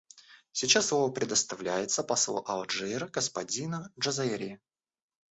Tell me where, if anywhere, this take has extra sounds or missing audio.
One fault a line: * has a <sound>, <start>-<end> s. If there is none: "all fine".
all fine